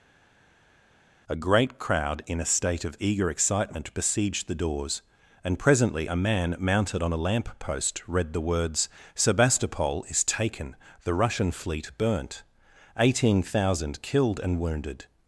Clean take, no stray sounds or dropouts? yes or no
yes